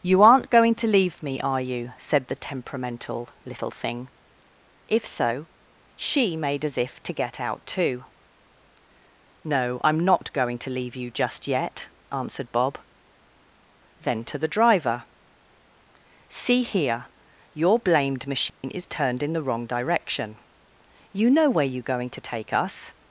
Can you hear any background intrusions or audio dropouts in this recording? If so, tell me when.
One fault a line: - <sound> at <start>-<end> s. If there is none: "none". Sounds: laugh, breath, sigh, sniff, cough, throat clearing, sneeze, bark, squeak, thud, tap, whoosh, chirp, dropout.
- dropout at 18.5-18.6 s